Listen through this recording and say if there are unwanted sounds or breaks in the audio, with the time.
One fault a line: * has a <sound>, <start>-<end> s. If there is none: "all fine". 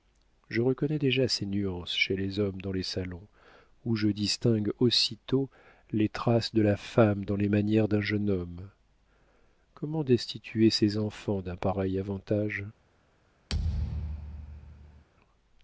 * has a thud, 13.5-15.0 s